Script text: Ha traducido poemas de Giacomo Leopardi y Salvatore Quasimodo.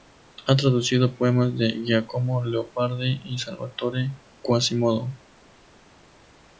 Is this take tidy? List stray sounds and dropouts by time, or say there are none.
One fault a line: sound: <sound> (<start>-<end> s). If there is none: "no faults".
no faults